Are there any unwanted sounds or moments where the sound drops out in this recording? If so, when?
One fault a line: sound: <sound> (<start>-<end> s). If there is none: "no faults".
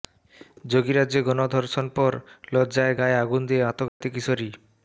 sound: dropout (3.9-4.0 s)